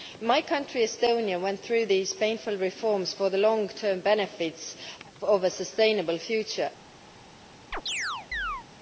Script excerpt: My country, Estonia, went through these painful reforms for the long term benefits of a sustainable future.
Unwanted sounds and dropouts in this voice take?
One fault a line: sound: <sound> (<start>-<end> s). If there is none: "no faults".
sound: chirp (7.7-8.7 s)